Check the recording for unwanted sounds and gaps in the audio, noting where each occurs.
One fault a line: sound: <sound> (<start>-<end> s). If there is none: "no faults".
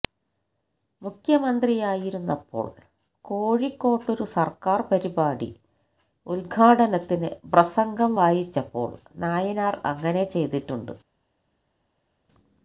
no faults